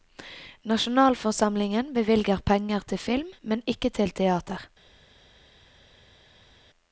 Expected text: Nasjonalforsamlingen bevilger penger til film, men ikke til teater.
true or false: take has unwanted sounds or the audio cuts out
false